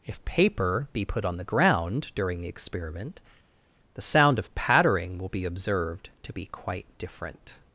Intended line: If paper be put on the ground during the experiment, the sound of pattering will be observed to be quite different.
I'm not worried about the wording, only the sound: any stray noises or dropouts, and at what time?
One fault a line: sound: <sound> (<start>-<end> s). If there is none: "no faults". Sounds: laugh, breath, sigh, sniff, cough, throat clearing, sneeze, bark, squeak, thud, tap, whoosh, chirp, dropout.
no faults